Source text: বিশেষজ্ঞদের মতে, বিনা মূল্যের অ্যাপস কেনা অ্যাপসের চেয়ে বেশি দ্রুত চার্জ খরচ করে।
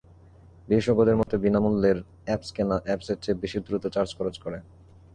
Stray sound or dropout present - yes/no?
yes